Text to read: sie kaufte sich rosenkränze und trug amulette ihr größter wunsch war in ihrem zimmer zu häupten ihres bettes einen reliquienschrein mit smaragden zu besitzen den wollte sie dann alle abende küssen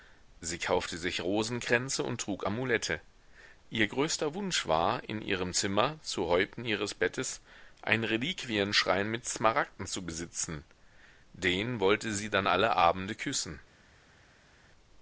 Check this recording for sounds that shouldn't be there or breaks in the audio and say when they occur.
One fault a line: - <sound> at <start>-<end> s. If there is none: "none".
none